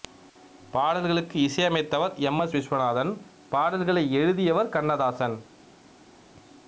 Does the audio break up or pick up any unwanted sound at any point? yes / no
no